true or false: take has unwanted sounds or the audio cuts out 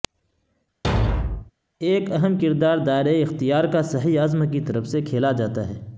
true